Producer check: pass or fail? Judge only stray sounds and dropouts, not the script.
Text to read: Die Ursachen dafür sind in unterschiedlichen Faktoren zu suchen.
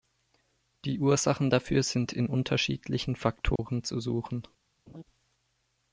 fail